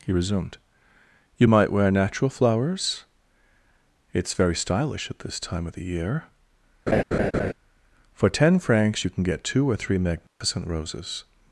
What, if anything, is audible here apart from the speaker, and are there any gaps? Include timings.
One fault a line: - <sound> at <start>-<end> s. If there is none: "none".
- laugh at 6.9-7.5 s
- dropout at 10.3-10.4 s